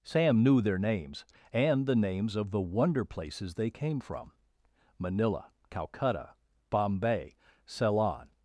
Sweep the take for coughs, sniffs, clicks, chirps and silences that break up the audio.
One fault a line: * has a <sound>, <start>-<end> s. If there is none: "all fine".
all fine